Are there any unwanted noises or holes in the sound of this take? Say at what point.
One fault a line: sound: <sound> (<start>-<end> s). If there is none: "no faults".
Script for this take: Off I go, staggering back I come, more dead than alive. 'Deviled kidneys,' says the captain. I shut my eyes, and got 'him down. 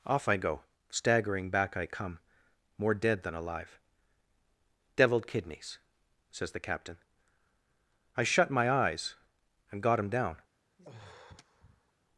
sound: sigh (10.8-11.9 s)